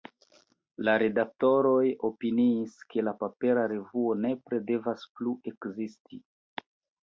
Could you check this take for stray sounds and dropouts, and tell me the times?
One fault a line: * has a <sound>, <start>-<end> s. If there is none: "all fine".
all fine